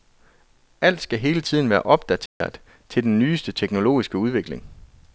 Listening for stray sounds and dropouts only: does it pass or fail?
fail